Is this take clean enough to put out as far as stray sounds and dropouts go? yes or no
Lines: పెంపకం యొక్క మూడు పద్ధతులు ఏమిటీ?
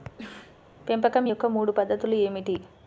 no